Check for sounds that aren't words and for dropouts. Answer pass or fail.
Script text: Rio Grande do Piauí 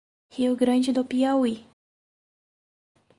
pass